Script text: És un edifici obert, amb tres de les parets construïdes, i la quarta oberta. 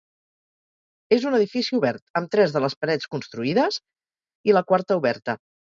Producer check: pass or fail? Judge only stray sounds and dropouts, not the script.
pass